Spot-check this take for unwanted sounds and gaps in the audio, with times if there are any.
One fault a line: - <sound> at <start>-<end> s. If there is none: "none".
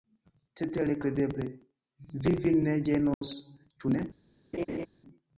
- dropout at 3.1-3.2 s
- laugh at 4.5-4.9 s